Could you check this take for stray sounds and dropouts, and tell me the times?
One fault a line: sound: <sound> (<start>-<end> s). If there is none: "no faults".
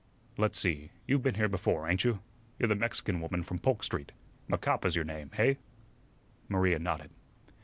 no faults